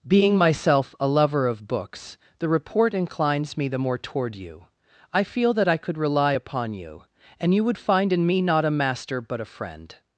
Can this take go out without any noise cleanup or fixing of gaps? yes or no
yes